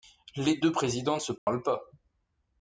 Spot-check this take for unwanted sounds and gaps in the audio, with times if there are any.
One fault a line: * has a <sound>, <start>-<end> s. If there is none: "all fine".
* has a dropout, 1.4-1.5 s